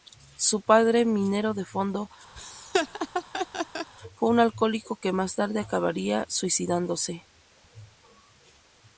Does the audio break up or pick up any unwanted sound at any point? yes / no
yes